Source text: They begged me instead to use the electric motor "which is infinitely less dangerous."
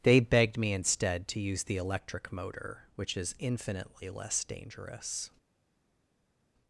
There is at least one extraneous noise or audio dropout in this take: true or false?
false